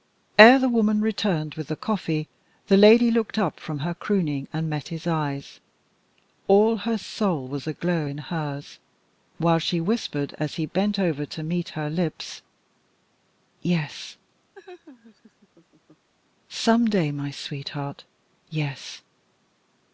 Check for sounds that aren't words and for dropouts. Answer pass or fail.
fail